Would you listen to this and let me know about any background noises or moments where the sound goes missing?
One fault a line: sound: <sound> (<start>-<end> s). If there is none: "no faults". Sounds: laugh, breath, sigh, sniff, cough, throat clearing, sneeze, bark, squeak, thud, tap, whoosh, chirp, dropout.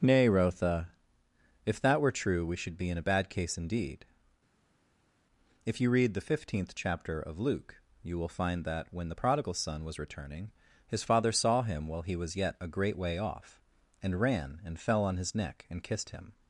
no faults